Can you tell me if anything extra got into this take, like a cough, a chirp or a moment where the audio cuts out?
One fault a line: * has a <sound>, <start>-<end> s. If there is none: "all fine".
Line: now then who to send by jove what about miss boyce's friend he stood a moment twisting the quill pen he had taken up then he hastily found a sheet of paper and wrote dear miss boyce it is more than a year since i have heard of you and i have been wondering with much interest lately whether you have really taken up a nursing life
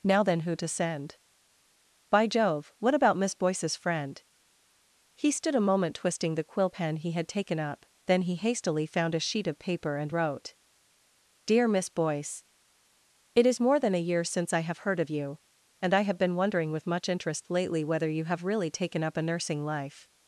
all fine